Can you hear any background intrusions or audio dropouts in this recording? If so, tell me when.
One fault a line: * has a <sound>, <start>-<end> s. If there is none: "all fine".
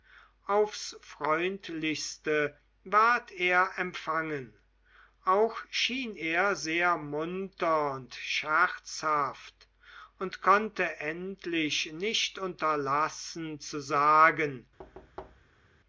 * has a thud, 14.8-15.6 s